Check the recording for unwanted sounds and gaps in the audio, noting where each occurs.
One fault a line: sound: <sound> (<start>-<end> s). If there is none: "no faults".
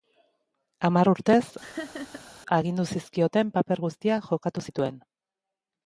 sound: laugh (1.6-2.3 s)